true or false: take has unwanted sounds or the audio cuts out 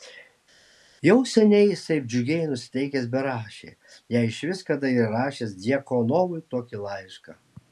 false